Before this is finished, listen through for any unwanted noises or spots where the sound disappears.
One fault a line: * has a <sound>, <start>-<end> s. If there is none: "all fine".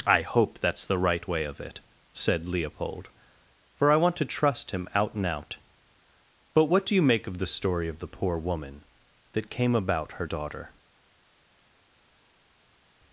all fine